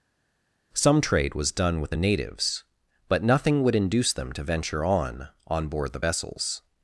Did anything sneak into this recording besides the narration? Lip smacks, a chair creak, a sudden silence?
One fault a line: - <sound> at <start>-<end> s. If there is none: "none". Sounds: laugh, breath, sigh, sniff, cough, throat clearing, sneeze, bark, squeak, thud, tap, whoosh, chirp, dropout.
none